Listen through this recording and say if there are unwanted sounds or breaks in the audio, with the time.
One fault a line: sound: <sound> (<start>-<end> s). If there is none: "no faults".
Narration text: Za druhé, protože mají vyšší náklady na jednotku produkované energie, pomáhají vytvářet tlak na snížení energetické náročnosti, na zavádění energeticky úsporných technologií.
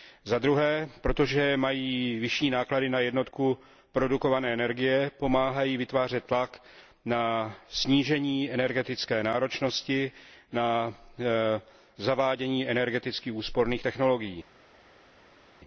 no faults